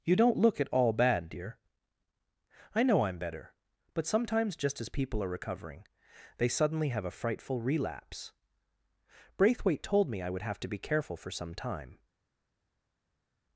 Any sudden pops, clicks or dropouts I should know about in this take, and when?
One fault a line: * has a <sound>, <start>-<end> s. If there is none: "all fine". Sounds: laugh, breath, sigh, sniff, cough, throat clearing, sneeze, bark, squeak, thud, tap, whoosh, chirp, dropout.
all fine